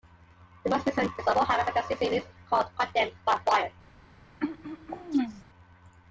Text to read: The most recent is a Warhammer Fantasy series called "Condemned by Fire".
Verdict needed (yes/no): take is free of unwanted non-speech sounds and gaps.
no